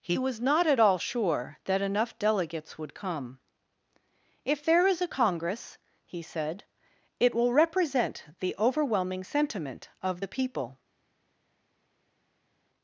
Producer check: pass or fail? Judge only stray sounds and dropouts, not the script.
pass